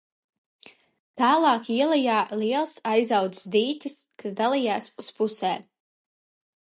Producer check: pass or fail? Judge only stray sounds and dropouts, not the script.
pass